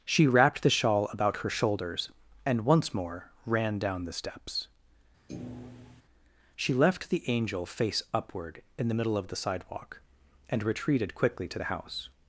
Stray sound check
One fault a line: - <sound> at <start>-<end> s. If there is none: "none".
- thud at 5.3-6.0 s